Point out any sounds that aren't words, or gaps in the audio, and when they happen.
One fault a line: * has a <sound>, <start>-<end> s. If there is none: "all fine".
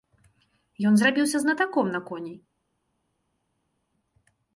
all fine